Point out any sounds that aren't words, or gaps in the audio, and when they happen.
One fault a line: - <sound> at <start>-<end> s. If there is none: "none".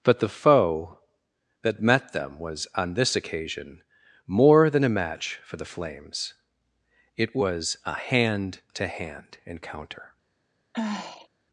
- sigh at 10.7-11.3 s